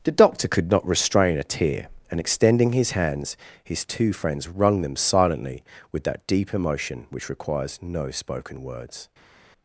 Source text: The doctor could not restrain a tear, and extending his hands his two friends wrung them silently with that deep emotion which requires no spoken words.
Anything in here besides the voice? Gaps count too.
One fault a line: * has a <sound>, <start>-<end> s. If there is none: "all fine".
all fine